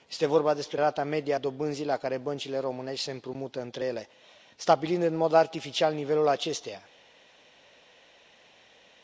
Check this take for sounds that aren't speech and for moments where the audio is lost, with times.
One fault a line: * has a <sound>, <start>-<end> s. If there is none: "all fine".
all fine